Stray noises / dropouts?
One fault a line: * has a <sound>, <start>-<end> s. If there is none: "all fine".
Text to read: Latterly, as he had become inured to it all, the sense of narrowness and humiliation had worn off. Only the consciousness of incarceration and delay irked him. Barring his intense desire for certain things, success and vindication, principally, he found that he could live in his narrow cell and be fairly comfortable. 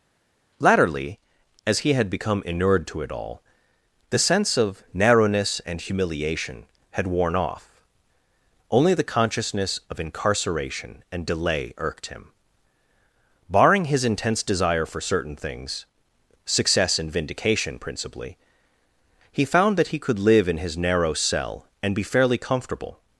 all fine